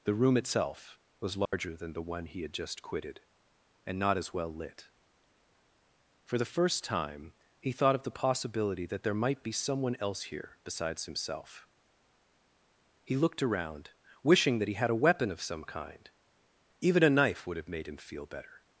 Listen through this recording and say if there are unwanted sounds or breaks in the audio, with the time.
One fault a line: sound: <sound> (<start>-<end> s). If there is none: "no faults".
sound: dropout (1.5-1.5 s)